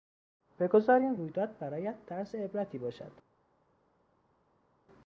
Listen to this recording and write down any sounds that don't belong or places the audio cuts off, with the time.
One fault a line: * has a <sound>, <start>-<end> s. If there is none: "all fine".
all fine